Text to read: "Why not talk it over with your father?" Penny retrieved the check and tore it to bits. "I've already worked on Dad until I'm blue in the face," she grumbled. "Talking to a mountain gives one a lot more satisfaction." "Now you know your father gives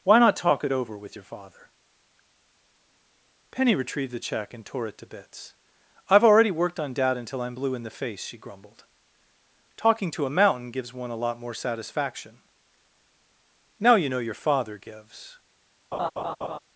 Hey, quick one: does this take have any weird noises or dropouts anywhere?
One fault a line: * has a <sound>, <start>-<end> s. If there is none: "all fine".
* has a laugh, 15.9-16.6 s